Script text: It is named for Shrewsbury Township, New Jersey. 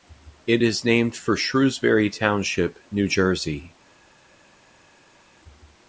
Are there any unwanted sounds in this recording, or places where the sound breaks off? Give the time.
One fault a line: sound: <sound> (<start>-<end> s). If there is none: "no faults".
no faults